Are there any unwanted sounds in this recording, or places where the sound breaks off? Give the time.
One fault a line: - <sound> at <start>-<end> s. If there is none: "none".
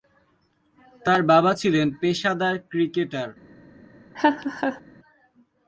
- laugh at 4.1-4.8 s